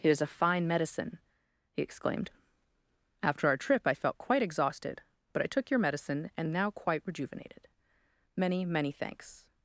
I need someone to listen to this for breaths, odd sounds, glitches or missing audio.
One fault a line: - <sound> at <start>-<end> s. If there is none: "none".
none